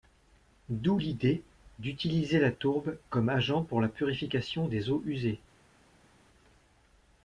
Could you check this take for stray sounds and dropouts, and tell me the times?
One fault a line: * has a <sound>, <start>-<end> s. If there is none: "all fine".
all fine